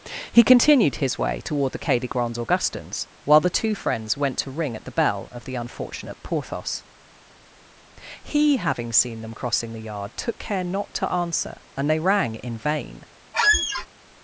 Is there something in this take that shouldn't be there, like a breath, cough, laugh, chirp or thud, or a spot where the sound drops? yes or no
yes